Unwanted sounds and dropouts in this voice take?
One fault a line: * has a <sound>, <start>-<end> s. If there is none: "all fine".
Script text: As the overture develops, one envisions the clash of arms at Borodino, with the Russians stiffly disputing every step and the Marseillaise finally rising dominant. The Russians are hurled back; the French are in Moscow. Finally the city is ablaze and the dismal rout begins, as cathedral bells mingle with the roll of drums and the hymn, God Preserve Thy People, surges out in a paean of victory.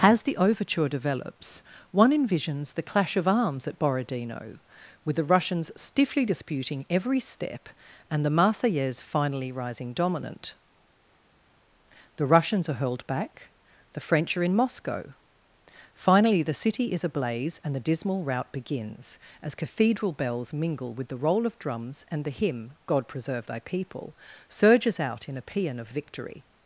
all fine